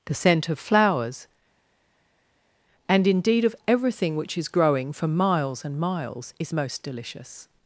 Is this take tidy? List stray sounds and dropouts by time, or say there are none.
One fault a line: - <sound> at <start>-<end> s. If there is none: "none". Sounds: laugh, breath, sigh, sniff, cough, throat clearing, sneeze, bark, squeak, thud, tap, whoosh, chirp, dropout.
none